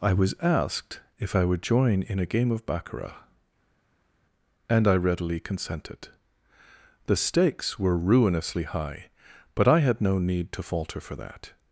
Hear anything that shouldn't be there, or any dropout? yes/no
no